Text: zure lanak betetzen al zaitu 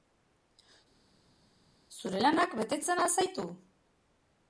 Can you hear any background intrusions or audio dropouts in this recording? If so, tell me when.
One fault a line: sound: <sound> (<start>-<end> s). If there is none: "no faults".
no faults